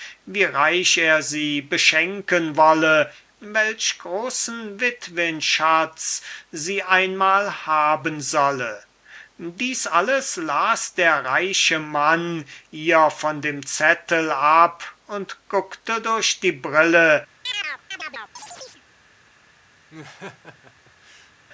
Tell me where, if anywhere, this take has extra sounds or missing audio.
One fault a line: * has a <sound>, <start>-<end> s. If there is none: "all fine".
* has a chirp, 17.4-18.8 s
* has a laugh, 19.9-21.3 s